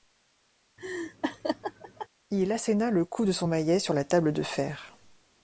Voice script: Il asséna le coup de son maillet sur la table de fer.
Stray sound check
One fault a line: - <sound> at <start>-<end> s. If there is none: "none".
- laugh at 0.8-2.1 s